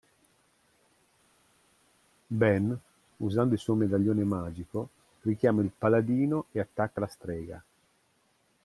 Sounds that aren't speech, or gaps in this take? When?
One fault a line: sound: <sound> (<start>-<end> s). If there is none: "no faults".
no faults